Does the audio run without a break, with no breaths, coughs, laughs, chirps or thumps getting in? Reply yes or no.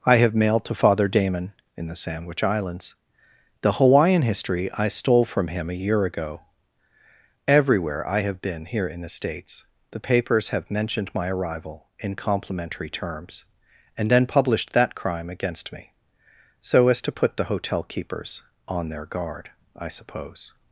yes